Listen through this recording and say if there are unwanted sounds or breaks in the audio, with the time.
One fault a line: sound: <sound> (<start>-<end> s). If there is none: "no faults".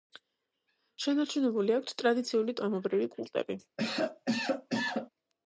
sound: cough (3.8-5.1 s)